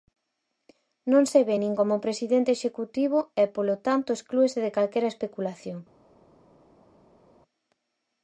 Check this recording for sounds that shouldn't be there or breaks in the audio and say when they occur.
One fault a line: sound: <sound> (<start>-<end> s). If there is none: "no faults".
no faults